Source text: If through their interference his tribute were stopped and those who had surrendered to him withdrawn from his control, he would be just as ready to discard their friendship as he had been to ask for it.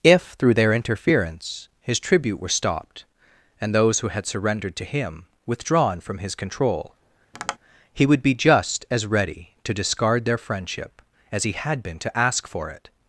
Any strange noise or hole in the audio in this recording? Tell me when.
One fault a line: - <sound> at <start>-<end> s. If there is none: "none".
- tap at 7.3-7.6 s